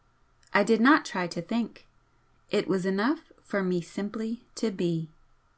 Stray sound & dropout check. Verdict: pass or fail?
pass